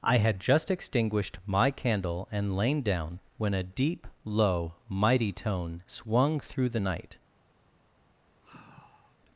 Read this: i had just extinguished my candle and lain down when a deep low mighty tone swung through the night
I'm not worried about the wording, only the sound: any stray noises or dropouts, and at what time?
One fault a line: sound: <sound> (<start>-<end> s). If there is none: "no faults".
sound: sigh (8.4-9.2 s)